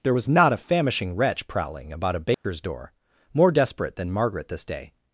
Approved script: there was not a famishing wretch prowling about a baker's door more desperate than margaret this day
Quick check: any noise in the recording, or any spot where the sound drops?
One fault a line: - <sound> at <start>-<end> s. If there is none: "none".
- dropout at 2.3-2.4 s